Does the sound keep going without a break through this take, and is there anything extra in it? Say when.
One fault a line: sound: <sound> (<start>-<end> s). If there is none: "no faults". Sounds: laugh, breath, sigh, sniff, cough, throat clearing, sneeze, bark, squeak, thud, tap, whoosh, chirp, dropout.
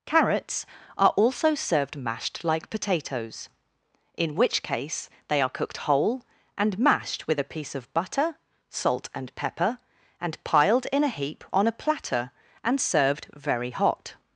no faults